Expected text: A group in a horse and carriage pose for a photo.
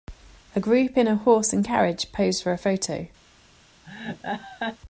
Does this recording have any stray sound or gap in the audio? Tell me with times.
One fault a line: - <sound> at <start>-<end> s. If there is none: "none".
- laugh at 3.8-4.8 s